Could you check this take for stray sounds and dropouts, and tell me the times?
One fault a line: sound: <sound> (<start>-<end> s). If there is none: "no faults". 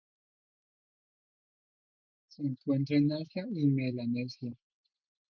no faults